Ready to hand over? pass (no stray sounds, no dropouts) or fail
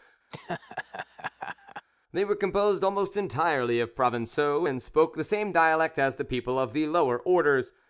fail